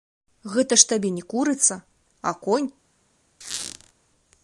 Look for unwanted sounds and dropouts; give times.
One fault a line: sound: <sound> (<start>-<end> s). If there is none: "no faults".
sound: squeak (3.4-3.9 s)